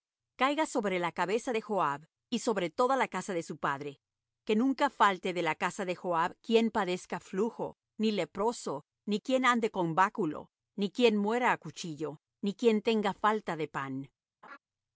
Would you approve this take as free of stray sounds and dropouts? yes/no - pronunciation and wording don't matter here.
no